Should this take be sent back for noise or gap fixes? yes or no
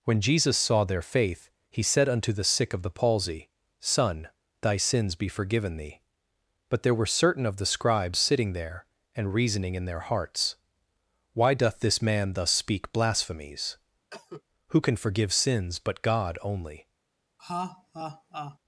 yes